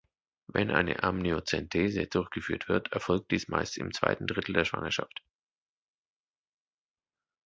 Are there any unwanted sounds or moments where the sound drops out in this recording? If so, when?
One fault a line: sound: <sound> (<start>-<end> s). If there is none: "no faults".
no faults